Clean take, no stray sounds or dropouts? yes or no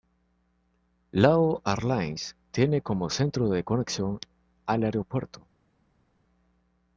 yes